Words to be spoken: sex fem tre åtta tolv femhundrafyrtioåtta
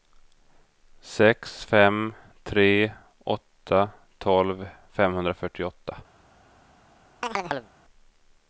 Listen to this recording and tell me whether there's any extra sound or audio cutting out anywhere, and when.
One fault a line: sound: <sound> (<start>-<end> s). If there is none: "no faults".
sound: chirp (7.2-7.7 s)